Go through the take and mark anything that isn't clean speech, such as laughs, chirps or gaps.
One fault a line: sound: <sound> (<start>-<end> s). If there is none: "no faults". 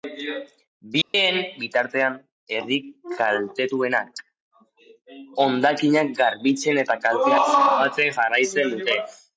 sound: dropout (1.0-1.1 s)